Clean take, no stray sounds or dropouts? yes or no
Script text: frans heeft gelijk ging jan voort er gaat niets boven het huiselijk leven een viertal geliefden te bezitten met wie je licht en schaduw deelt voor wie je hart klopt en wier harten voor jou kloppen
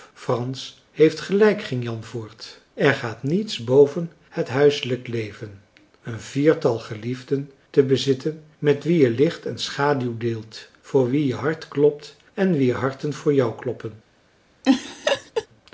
no